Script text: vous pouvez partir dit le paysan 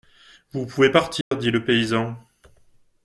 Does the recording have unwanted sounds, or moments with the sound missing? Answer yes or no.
yes